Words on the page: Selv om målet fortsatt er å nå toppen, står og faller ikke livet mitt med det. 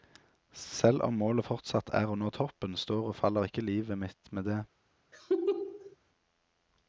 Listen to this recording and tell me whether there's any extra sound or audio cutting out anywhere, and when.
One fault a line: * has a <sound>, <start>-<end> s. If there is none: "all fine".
* has a laugh, 5.1-6.0 s